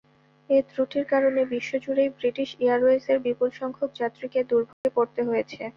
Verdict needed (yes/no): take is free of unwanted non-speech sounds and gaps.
no